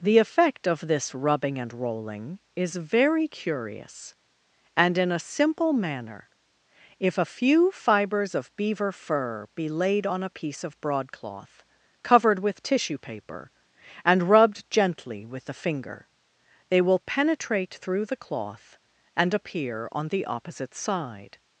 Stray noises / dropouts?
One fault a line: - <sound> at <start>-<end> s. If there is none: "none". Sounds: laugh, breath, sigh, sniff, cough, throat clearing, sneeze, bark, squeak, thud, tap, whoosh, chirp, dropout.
none